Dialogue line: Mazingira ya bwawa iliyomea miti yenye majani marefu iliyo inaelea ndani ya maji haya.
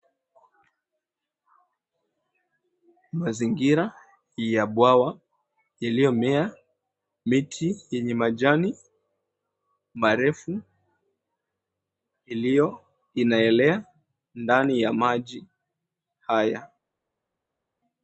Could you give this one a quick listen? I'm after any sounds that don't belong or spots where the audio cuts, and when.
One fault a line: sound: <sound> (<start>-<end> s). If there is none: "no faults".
no faults